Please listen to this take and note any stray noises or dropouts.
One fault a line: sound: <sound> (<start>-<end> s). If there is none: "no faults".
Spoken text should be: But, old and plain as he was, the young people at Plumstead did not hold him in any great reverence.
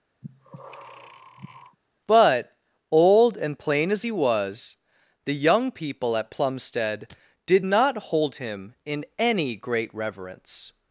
sound: breath (0.2-1.8 s)